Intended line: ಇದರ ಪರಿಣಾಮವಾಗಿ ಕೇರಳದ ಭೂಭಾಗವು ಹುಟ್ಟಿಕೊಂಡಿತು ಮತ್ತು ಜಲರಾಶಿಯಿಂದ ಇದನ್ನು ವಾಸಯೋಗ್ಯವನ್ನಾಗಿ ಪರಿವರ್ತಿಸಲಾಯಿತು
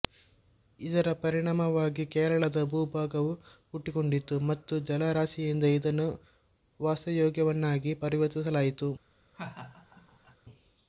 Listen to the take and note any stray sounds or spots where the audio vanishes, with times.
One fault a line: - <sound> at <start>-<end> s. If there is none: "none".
- laugh at 9.3-10.4 s